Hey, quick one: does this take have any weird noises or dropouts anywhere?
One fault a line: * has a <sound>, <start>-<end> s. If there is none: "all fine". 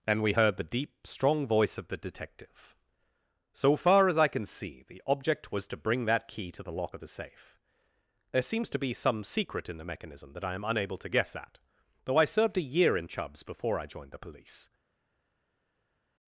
all fine